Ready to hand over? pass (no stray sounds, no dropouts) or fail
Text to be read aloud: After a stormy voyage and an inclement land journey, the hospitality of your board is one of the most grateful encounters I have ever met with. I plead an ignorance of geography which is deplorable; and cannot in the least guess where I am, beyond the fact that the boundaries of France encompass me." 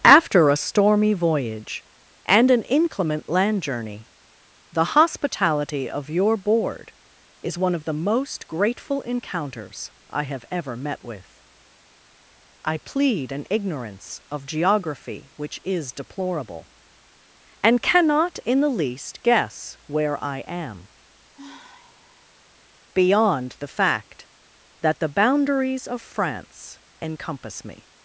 fail